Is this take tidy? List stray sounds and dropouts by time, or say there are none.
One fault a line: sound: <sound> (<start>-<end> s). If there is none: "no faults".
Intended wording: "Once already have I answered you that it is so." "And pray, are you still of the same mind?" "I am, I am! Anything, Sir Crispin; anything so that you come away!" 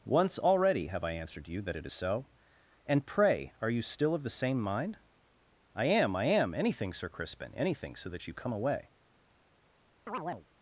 sound: chirp (10.1-10.5 s)